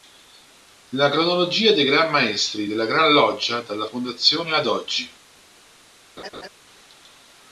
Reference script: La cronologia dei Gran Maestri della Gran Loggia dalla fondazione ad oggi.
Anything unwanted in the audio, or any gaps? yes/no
yes